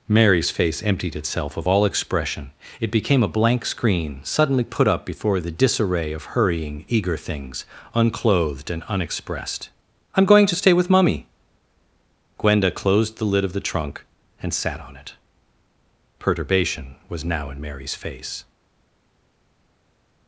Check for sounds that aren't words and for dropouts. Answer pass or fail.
pass